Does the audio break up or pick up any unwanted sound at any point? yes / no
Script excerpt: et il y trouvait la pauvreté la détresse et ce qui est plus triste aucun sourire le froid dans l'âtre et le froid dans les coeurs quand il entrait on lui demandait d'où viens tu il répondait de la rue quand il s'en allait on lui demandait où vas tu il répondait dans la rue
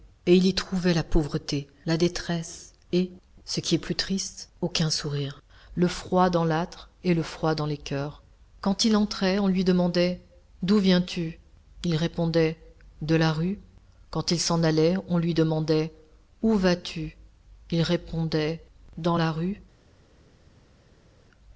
no